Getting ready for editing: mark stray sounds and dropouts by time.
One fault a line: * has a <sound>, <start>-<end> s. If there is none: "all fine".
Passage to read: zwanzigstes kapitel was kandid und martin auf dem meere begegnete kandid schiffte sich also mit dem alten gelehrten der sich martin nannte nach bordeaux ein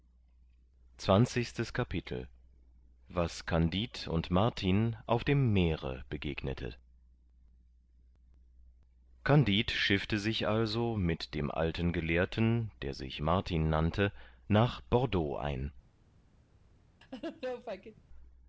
* has a laugh, 17.0-18.0 s